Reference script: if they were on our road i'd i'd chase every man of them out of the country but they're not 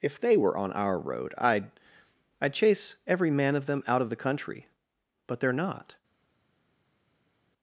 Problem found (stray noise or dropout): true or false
false